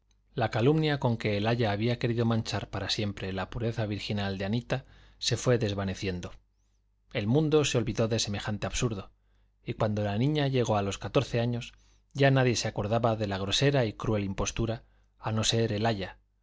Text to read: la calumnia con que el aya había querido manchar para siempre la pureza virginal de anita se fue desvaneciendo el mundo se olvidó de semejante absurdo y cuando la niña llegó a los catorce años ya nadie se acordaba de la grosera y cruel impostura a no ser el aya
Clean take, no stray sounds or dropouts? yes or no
yes